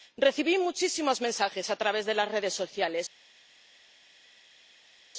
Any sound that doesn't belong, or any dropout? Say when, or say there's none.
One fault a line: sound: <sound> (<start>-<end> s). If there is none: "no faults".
no faults